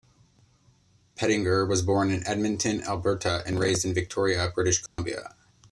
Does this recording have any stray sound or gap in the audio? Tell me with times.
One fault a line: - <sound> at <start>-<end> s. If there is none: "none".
- dropout at 4.9-5.0 s